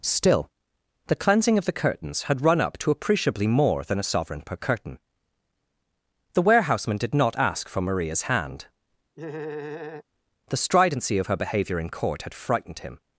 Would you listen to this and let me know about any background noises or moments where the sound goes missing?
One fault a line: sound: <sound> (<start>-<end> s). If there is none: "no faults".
sound: laugh (9.2-10.0 s)